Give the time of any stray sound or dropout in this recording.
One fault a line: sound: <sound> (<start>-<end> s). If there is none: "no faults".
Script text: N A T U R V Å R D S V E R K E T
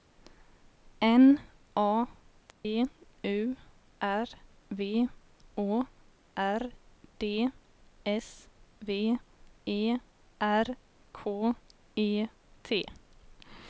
sound: dropout (2.5-2.6 s)